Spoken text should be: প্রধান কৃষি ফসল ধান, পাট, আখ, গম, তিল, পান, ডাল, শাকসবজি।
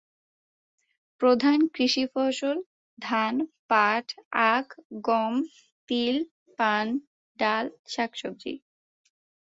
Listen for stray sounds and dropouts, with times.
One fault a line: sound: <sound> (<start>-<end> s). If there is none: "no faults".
no faults